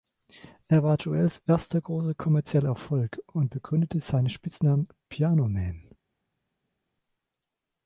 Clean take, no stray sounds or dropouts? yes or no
yes